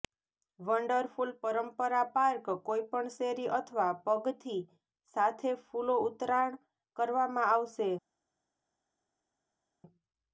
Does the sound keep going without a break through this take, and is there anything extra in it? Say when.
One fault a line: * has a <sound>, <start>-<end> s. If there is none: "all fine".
all fine